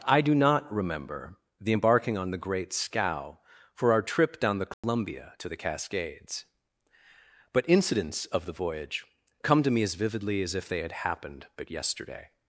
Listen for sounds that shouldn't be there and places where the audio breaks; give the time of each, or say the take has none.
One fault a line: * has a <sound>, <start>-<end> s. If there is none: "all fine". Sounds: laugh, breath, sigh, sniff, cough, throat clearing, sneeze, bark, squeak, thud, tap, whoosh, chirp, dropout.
* has a dropout, 4.7-4.8 s